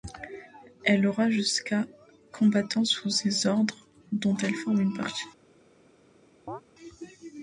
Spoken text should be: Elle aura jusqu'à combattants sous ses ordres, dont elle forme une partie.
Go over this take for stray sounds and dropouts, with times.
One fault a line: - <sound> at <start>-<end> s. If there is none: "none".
- chirp at 6.5-6.6 s